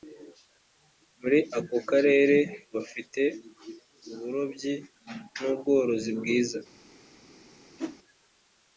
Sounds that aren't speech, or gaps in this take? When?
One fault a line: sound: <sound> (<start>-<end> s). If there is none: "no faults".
sound: whoosh (7.8-8.0 s)